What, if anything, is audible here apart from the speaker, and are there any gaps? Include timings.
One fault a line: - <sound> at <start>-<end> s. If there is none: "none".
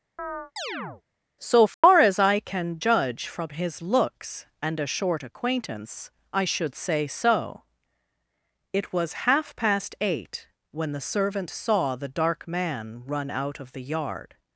- chirp at 0.2-1.0 s
- dropout at 1.7-1.8 s